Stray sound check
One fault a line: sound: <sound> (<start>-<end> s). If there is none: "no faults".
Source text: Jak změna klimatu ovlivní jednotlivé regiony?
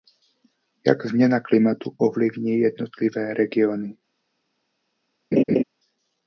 sound: laugh (5.3-5.6 s)